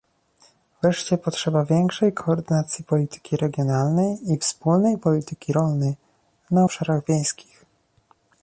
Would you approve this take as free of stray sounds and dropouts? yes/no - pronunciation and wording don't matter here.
yes